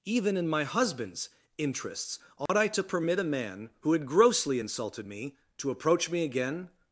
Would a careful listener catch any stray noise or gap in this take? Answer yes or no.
yes